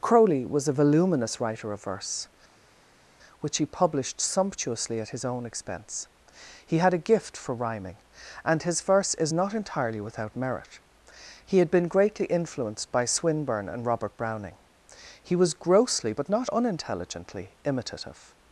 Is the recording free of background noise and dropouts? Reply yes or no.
yes